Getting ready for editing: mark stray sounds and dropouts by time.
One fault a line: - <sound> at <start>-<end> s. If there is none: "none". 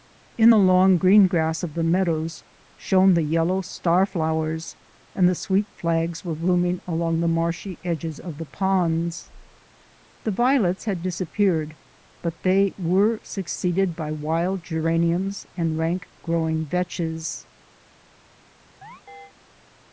- chirp at 18.8-19.3 s